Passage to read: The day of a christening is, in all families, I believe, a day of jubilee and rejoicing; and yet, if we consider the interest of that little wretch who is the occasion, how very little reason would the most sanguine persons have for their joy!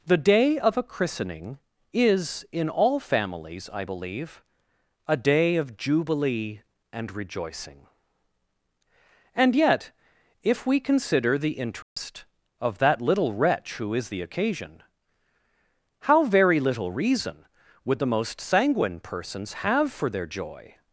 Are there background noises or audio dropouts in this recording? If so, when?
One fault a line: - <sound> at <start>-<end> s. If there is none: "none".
- dropout at 11.8-12.0 s